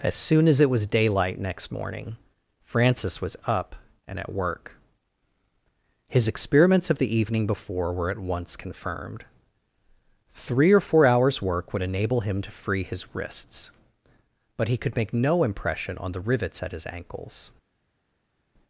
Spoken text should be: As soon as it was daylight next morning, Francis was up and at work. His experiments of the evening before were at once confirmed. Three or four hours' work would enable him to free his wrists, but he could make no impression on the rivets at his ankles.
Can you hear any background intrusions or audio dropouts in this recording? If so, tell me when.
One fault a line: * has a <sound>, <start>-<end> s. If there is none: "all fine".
all fine